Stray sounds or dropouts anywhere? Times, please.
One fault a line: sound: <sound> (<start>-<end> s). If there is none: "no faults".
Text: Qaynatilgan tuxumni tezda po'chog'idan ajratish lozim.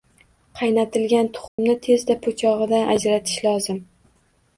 sound: dropout (1.5-1.6 s)